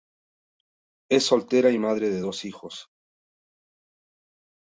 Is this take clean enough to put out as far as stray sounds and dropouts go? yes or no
yes